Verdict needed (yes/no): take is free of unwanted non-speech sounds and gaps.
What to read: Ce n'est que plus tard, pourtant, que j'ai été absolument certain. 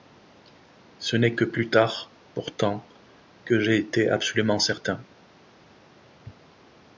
yes